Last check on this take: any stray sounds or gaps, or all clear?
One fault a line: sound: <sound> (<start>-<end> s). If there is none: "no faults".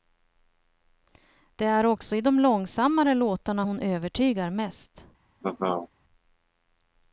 sound: laugh (5.4-5.9 s)